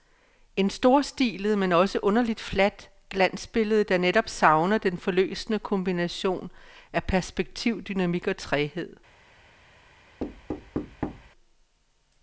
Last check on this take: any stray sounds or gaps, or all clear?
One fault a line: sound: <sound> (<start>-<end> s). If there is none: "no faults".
sound: thud (10.2-11.3 s)